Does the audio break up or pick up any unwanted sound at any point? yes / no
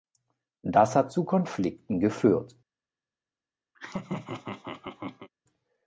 yes